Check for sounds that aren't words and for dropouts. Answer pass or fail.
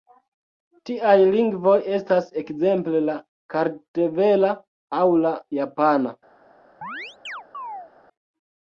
fail